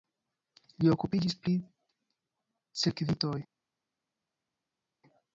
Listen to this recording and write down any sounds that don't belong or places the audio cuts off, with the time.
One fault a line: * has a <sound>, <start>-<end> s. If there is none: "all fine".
all fine